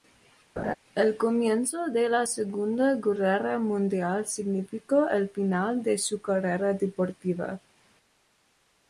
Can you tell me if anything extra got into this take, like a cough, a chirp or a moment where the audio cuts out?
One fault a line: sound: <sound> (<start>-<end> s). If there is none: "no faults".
sound: laugh (0.6-0.7 s)